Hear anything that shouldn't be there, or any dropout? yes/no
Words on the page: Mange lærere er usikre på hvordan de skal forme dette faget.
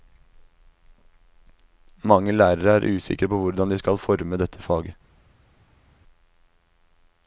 no